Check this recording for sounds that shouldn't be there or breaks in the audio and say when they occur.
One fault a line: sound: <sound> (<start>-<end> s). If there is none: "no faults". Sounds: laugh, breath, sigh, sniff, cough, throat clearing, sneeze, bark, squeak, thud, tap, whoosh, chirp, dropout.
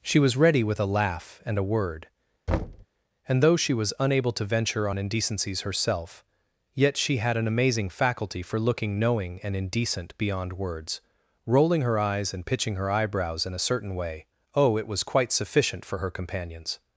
sound: thud (2.5-2.9 s)